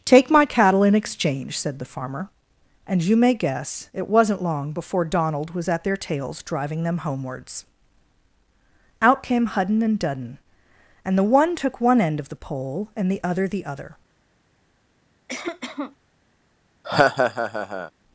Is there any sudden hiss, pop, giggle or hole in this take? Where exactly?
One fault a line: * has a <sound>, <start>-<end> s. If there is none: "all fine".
* has a cough, 15.3-16.0 s
* has a laugh, 16.8-17.9 s